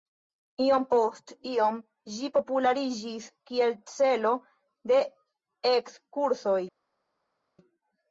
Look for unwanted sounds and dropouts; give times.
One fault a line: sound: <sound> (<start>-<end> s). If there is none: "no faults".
no faults